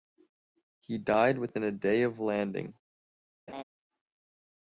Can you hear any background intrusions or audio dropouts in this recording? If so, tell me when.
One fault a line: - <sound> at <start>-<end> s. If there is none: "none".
- laugh at 3.5-3.6 s